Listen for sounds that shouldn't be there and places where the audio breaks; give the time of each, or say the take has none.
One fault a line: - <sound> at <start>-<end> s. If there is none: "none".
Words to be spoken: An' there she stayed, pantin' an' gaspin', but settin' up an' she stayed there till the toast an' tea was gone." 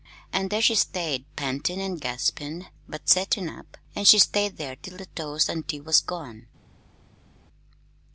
none